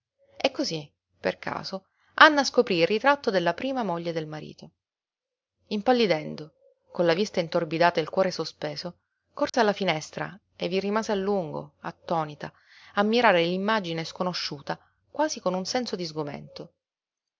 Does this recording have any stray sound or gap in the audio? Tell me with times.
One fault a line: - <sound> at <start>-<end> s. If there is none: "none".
- dropout at 9.5-9.5 s